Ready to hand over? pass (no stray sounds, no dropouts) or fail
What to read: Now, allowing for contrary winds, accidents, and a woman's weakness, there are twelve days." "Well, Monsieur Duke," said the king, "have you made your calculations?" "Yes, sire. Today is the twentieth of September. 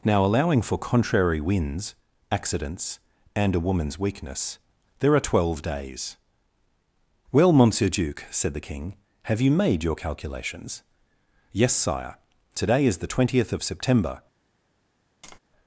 fail